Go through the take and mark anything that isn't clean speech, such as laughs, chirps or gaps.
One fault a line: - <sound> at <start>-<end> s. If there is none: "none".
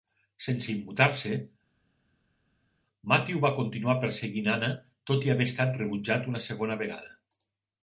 none